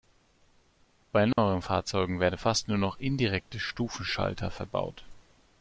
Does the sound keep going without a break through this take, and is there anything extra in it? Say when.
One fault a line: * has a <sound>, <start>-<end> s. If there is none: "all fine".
* has a dropout, 1.3-1.4 s